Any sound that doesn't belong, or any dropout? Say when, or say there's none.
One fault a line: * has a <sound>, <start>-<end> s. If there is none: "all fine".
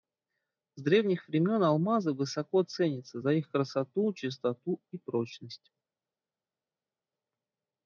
all fine